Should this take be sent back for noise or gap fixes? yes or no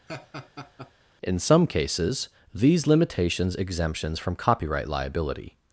yes